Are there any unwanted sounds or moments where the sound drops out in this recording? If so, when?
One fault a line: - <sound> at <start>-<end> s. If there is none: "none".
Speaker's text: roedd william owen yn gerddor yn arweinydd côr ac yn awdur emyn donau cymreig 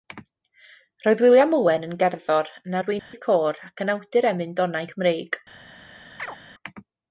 - dropout at 3.0-3.1 s
- chirp at 6.2-6.4 s